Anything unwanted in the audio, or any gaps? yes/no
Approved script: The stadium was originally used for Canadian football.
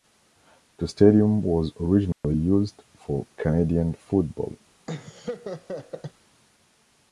yes